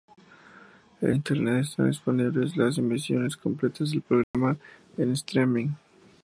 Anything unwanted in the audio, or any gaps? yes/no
yes